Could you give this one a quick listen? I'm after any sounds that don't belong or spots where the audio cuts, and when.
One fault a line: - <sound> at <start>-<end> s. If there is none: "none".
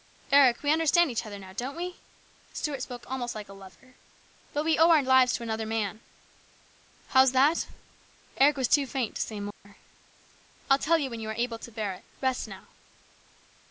- dropout at 9.5-9.7 s